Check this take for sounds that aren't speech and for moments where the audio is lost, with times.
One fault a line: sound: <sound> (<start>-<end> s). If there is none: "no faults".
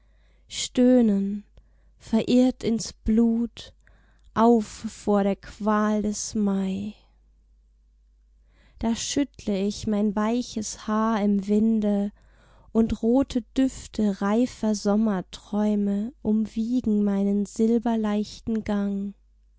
no faults